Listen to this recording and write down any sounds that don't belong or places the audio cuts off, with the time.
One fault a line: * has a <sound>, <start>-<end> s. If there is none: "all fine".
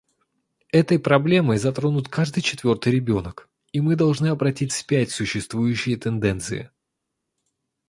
all fine